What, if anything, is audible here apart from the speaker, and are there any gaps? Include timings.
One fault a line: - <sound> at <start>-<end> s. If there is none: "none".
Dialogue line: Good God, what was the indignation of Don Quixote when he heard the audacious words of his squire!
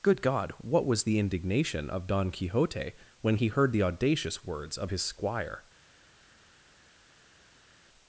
none